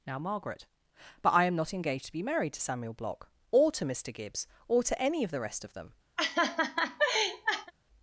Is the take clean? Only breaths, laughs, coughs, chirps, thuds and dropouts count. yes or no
no